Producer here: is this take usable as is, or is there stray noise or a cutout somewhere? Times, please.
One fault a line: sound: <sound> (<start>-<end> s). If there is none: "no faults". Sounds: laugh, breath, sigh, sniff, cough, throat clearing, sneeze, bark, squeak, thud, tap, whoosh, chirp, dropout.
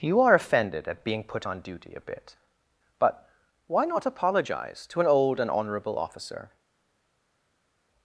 no faults